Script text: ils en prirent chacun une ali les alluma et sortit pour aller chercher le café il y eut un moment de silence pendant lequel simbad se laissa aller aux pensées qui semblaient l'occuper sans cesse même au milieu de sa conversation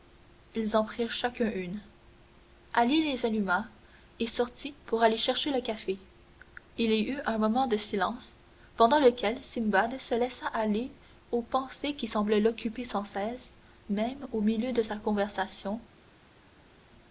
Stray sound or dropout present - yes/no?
no